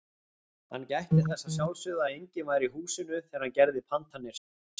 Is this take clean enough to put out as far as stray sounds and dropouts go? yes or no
yes